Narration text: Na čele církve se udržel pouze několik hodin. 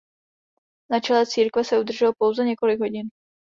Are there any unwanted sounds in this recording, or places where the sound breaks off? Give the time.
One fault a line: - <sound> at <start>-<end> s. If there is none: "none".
none